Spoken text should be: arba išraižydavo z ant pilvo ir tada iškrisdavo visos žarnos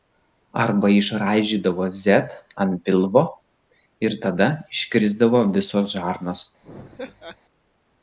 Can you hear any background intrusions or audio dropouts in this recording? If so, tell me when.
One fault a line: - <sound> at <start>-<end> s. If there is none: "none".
- laugh at 6.6-7.4 s